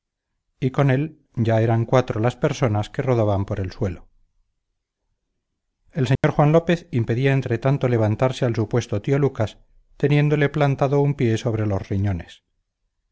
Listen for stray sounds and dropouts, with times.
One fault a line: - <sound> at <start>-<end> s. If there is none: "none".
- dropout at 6.2-6.2 s